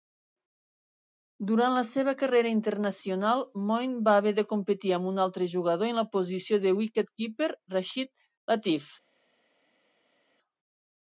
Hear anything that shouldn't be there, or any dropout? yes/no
no